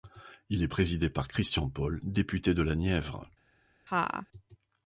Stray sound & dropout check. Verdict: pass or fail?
fail